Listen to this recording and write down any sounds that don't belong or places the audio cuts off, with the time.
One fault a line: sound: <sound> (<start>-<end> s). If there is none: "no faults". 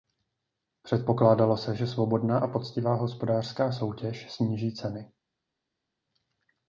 no faults